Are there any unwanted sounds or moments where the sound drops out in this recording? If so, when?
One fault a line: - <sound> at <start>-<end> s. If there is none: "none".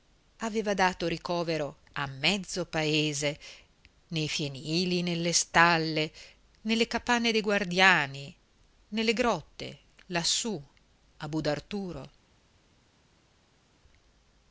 none